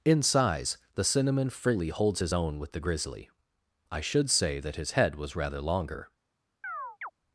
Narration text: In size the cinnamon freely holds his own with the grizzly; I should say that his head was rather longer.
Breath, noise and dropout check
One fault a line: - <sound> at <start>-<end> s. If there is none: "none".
- chirp at 6.6-7.1 s